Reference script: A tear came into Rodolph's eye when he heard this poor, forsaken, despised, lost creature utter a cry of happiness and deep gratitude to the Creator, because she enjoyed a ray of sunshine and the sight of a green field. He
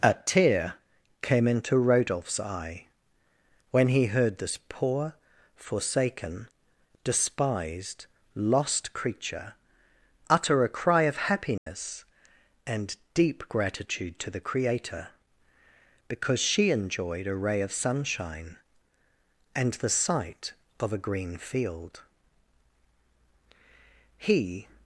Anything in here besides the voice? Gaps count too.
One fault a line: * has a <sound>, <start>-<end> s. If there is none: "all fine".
* has a dropout, 11.6-11.7 s